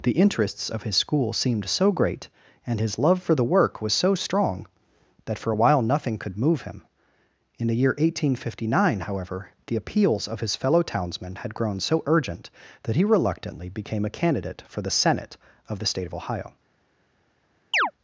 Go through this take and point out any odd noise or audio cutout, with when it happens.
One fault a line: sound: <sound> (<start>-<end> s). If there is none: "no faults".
sound: chirp (17.7-17.9 s)